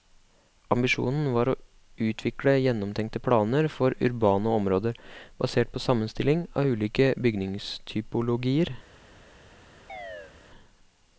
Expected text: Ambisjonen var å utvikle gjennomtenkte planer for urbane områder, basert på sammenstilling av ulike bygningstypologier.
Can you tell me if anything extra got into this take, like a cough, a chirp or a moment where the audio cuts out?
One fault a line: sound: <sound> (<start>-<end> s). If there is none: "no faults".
sound: chirp (9.9-10.3 s)